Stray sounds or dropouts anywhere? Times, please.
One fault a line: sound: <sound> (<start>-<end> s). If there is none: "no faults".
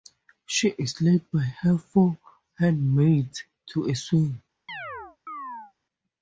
sound: chirp (4.7-5.7 s)